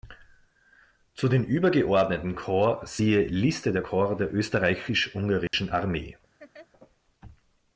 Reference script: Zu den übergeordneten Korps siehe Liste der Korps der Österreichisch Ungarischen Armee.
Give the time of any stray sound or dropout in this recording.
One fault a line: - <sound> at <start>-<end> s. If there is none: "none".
- dropout at 5.5-5.5 s
- laugh at 6.4-6.7 s